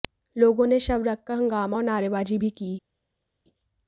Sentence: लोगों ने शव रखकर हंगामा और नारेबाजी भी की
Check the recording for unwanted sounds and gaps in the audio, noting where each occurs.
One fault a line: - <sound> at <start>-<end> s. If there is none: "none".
none